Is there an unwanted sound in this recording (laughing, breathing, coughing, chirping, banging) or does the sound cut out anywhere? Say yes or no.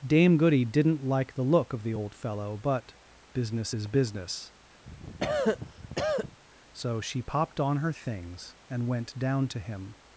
yes